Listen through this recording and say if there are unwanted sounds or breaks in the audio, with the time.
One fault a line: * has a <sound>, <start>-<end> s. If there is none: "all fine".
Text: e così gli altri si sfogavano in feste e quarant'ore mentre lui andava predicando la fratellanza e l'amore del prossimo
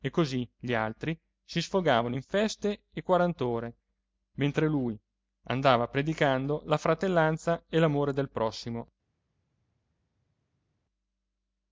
all fine